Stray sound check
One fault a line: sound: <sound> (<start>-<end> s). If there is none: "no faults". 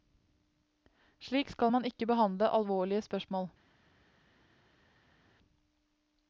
no faults